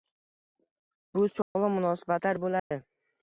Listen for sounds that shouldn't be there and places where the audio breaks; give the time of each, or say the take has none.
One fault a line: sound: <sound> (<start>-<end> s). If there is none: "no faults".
sound: dropout (1.4-1.6 s)
sound: dropout (2.6-2.7 s)